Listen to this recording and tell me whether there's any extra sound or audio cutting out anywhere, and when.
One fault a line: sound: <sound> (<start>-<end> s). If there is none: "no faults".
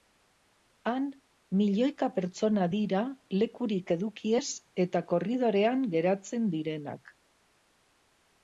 no faults